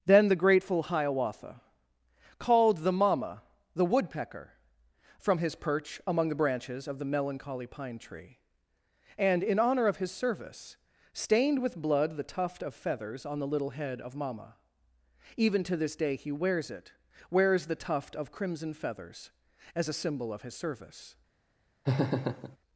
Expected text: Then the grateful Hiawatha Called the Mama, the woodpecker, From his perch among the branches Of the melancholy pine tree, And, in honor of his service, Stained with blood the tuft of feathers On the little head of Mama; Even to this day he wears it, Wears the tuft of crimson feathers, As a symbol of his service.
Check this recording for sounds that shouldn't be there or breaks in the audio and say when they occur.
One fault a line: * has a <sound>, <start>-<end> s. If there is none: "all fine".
* has a laugh, 21.8-22.6 s